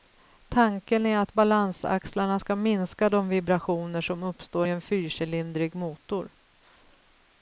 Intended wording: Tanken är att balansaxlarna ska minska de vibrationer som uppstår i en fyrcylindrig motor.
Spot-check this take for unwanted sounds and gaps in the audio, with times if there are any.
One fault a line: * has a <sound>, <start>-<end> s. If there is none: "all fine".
all fine